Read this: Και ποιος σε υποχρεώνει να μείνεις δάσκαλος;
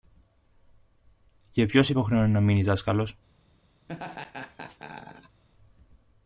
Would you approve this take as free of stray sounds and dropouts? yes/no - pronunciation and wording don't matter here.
no